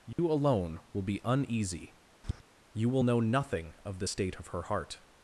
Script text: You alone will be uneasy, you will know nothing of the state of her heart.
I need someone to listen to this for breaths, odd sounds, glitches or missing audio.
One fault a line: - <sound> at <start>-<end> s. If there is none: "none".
- dropout at 0.1-0.2 s
- tap at 2.2-2.4 s